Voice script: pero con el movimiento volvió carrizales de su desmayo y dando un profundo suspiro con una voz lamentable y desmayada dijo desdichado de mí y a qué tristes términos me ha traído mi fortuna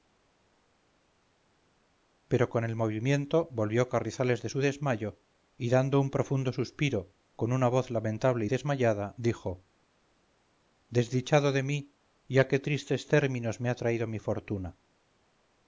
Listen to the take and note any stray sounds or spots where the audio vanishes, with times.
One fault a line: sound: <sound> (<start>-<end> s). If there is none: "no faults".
no faults